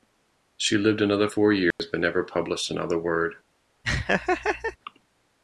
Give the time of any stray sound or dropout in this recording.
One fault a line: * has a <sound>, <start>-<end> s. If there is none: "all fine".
* has a dropout, 1.7-1.8 s
* has a laugh, 3.8-4.8 s